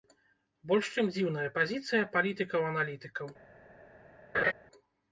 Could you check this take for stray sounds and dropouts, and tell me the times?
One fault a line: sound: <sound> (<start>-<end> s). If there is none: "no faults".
sound: laugh (4.3-4.5 s)